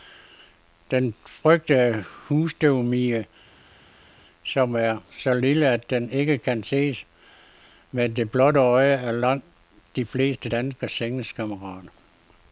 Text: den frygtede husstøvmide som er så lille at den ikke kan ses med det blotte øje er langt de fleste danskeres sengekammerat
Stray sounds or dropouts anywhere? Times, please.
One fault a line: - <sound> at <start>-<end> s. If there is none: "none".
none